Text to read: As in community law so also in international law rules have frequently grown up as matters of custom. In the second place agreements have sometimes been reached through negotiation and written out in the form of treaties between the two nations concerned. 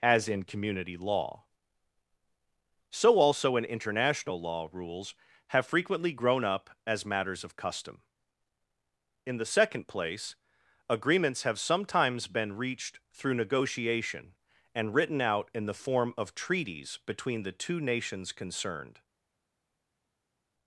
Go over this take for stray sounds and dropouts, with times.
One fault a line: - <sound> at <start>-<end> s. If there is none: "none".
none